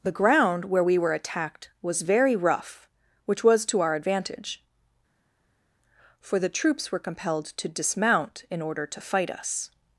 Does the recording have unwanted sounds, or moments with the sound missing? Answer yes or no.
no